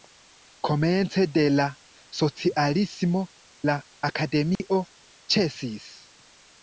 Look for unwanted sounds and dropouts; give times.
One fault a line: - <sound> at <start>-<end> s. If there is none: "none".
- dropout at 4.6-4.6 s